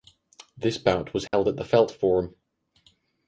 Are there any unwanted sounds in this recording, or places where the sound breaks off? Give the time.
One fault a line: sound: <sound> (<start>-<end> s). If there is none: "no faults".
sound: dropout (1.3-1.3 s)